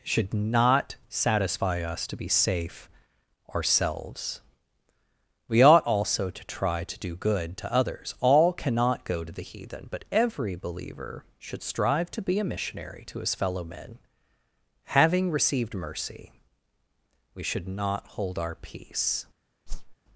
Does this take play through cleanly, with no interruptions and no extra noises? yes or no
no